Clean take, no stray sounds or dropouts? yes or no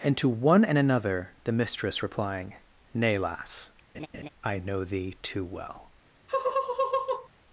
no